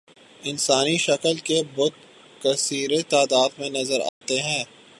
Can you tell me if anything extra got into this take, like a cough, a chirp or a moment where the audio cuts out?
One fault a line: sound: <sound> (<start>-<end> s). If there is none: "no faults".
sound: dropout (4.1-4.2 s)